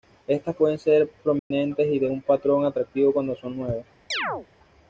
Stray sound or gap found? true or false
true